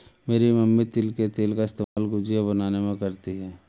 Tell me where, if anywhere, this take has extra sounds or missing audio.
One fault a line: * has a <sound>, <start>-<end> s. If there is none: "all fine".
* has a dropout, 1.8-2.0 s